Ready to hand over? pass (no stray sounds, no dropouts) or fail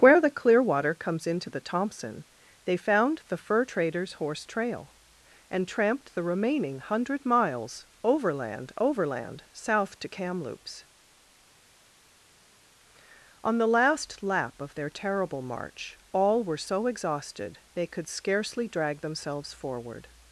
pass